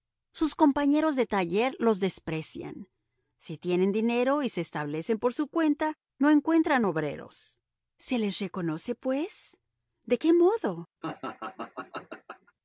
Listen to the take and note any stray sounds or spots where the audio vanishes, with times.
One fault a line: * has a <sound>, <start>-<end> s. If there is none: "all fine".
* has a laugh, 11.0-12.5 s